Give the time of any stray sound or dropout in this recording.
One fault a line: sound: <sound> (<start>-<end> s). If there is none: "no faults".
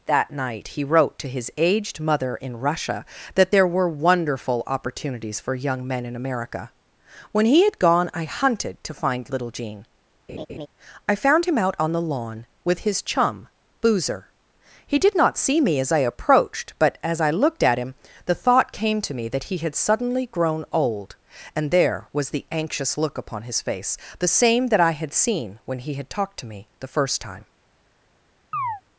sound: laugh (10.3-10.7 s)
sound: chirp (28.5-28.8 s)